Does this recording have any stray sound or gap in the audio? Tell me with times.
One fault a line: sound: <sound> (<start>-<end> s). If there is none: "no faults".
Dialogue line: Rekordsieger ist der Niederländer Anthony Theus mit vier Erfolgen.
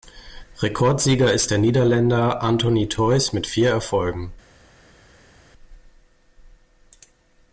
no faults